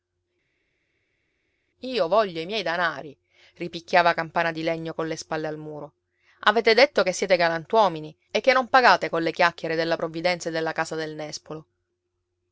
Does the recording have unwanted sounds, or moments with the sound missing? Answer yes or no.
no